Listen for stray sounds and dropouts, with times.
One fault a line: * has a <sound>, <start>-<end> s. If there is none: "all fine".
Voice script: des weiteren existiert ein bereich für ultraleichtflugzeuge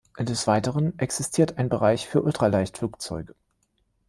all fine